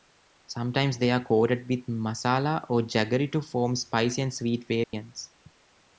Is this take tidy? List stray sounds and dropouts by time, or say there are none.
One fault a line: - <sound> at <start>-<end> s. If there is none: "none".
- dropout at 4.8-4.9 s